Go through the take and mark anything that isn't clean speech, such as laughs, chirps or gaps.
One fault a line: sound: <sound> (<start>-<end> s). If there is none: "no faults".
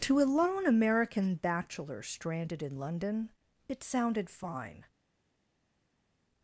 no faults